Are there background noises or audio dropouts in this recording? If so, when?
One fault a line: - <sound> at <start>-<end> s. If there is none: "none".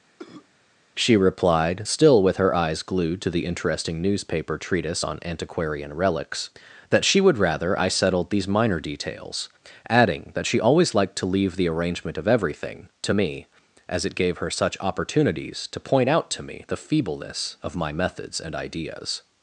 - cough at 0.2-0.5 s